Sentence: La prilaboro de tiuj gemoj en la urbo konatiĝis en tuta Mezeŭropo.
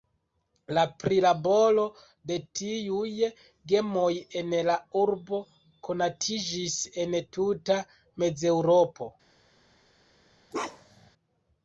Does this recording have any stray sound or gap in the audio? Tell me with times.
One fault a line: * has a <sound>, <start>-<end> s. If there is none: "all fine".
* has a bark, 10.5-11.1 s